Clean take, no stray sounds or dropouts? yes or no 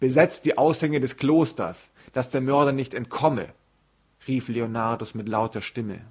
yes